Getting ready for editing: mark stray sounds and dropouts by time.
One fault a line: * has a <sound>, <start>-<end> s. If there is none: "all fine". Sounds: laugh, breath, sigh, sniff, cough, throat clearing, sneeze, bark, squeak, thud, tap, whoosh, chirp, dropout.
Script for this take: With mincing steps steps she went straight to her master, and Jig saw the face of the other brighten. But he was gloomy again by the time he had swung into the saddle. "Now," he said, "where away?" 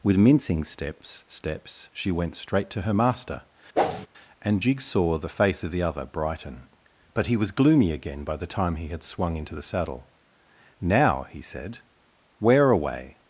* has a whoosh, 3.7-4.1 s